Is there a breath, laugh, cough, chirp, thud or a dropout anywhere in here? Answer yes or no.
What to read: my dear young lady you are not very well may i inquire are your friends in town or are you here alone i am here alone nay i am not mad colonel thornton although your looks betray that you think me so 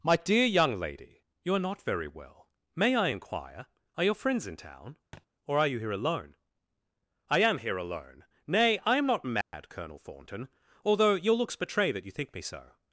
yes